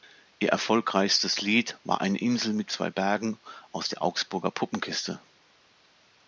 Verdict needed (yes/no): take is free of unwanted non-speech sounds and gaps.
yes